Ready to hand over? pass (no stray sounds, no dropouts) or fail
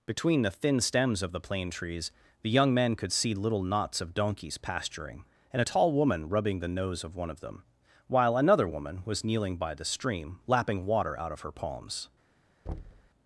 fail